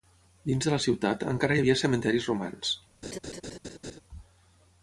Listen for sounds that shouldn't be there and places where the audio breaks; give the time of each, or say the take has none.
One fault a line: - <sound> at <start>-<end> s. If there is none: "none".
- laugh at 3.0-4.0 s